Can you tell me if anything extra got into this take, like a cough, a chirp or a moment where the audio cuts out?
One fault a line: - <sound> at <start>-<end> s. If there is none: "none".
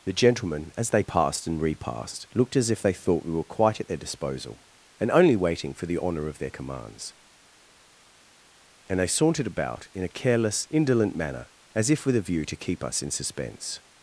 none